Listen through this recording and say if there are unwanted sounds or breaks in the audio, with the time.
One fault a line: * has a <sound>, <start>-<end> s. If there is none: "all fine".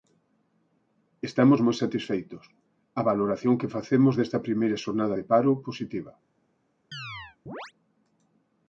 * has a chirp, 6.9-7.7 s